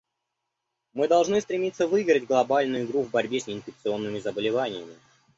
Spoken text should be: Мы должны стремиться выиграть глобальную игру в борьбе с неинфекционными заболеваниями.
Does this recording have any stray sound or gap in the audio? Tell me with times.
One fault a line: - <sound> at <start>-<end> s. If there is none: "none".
none